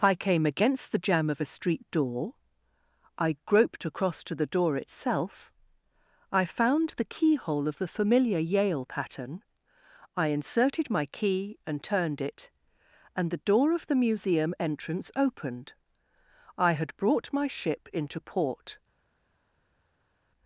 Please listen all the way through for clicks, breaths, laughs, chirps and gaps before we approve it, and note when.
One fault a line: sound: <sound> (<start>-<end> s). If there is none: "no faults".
no faults